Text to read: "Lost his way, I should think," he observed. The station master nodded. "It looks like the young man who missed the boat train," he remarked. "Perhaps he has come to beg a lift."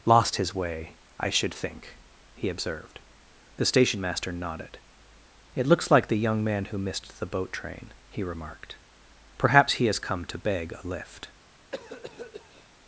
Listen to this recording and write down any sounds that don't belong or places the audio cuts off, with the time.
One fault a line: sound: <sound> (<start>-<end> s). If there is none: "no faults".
sound: cough (11.7-12.7 s)